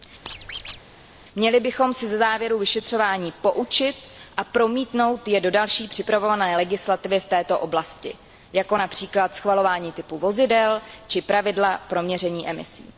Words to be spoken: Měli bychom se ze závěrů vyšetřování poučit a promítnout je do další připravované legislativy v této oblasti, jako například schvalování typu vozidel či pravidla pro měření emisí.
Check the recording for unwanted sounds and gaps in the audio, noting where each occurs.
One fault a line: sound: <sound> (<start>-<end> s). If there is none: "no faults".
sound: squeak (0.2-0.8 s)